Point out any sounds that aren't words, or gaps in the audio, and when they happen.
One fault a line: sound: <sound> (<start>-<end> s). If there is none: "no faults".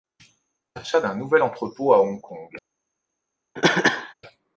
sound: cough (3.6-4.1 s)